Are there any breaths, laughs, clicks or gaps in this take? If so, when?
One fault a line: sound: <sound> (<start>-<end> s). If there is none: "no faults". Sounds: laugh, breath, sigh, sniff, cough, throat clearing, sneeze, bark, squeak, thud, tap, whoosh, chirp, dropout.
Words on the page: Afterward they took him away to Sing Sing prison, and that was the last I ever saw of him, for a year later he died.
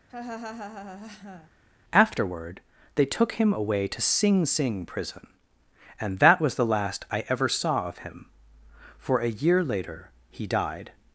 sound: laugh (0.1-1.5 s)